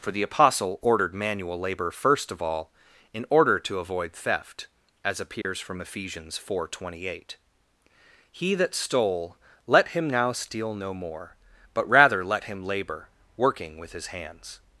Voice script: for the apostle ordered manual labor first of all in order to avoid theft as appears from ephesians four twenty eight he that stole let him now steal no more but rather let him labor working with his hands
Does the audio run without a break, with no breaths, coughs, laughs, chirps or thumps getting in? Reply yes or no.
no